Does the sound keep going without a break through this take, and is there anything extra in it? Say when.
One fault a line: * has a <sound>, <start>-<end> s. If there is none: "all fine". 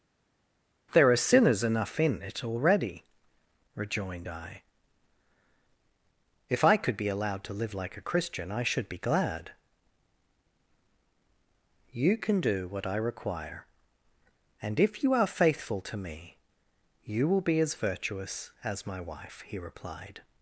all fine